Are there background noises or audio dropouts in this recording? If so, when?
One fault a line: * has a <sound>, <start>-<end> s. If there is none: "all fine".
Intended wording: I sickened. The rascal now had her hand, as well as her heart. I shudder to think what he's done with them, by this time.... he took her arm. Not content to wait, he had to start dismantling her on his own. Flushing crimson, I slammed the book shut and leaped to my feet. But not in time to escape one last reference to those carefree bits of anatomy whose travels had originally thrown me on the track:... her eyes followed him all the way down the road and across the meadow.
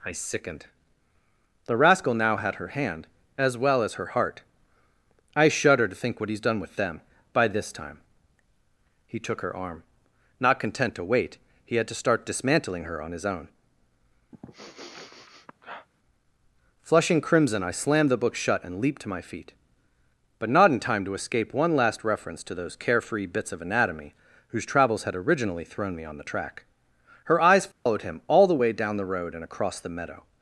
* has a sniff, 14.3-15.9 s
* has a dropout, 27.7-27.9 s